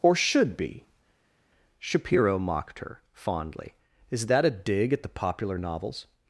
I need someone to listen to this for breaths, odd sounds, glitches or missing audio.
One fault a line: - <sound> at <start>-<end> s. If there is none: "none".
none